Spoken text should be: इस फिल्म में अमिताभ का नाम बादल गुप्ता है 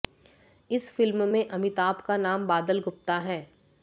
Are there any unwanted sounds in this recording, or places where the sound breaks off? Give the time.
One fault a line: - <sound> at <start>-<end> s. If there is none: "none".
none